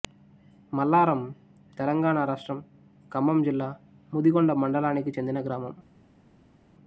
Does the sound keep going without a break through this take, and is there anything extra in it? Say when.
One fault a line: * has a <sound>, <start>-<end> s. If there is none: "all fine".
all fine